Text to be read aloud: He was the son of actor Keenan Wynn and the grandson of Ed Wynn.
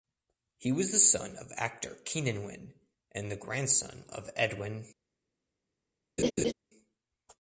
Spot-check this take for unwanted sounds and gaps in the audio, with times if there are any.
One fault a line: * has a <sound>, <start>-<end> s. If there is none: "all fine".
* has a laugh, 6.2-6.5 s